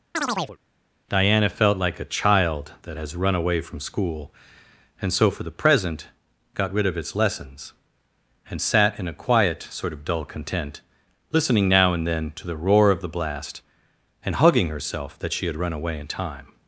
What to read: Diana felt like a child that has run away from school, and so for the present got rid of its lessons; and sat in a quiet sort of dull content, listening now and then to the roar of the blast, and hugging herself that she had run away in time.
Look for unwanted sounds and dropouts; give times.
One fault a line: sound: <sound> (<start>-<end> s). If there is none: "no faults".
sound: chirp (0.1-0.6 s)